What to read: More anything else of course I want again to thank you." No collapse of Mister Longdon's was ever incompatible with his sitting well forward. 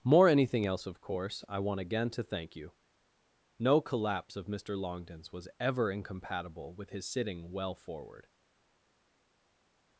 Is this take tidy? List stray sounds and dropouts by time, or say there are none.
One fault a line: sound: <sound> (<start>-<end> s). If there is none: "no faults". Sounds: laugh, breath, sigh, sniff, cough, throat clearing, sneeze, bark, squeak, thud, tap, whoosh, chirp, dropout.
no faults